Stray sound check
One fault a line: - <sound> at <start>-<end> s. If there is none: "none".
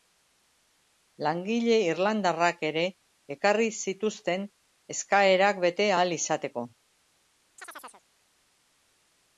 - chirp at 7.6-8.0 s